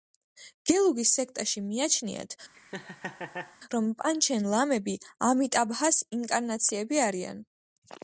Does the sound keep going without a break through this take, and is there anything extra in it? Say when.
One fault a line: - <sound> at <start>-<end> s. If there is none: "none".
- laugh at 2.5-3.6 s